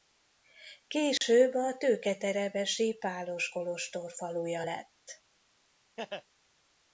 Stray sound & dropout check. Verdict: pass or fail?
fail